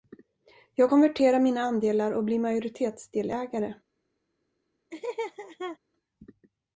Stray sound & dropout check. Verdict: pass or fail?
fail